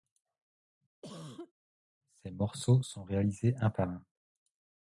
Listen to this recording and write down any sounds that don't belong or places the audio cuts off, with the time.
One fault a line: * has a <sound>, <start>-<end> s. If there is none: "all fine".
* has a cough, 1.0-1.5 s